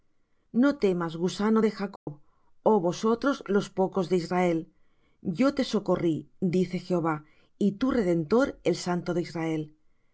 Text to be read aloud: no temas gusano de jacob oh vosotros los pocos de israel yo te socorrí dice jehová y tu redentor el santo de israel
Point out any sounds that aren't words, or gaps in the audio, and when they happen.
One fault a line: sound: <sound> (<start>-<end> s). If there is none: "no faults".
sound: dropout (2.0-2.1 s)